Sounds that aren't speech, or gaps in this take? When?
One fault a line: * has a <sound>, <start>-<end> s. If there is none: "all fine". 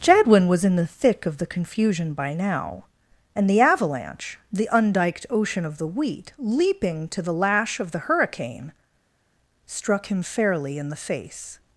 all fine